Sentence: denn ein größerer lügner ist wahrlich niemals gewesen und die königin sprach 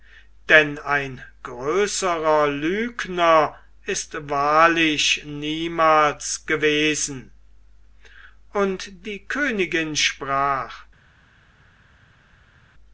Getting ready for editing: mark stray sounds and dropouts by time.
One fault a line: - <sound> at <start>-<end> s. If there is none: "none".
none